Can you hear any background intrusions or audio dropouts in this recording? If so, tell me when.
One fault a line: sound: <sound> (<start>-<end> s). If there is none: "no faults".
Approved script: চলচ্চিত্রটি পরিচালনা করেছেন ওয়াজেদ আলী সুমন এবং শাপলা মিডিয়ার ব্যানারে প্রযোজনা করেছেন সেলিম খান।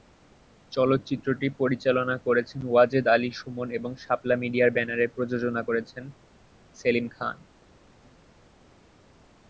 no faults